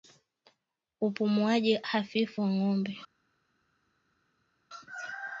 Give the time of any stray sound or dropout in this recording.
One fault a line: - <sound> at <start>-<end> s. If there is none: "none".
none